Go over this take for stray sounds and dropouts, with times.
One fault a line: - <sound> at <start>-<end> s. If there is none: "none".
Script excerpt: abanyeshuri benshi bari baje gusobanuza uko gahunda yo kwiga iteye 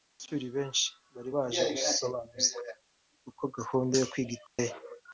- dropout at 4.5-4.6 s